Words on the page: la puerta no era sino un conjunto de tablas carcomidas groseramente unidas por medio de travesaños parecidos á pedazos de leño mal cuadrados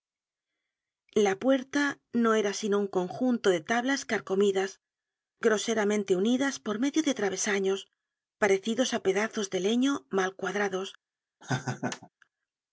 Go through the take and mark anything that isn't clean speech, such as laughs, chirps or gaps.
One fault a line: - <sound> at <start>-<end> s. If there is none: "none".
- laugh at 11.4-12.1 s